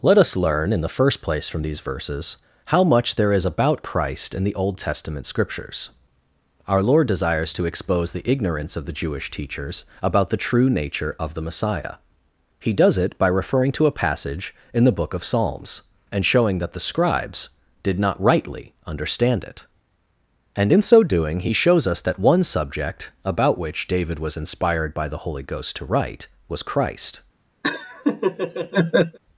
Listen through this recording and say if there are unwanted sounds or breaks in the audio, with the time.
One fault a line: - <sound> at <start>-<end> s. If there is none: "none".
- laugh at 27.6-29.2 s